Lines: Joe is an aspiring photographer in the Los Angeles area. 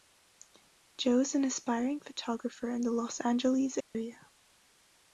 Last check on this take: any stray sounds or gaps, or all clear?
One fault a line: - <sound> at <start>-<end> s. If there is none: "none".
- dropout at 3.8-3.9 s